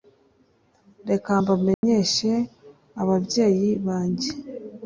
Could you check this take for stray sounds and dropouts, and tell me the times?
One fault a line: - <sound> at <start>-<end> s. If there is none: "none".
- dropout at 1.7-1.8 s